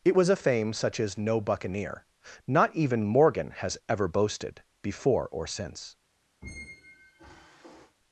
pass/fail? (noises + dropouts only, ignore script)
fail